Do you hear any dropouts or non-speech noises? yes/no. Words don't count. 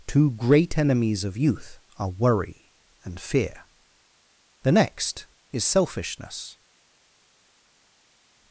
no